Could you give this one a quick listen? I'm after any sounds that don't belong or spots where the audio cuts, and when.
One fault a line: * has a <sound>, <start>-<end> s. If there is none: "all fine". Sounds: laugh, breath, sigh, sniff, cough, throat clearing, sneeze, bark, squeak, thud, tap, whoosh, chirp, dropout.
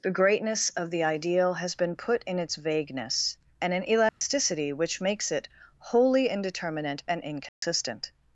* has a dropout, 4.1-4.2 s
* has a dropout, 7.5-7.6 s